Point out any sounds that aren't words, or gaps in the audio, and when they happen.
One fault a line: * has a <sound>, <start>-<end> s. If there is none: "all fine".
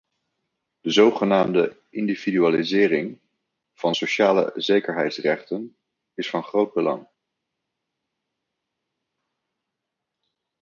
all fine